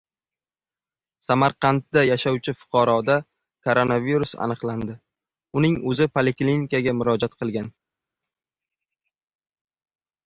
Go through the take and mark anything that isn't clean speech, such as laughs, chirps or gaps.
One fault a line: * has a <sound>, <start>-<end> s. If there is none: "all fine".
all fine